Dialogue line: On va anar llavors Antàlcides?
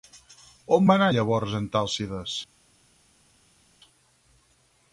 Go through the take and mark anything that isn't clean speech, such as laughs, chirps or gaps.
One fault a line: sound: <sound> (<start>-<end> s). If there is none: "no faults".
no faults